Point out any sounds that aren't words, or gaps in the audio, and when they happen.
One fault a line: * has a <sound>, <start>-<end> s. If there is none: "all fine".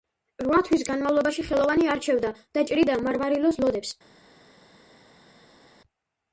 all fine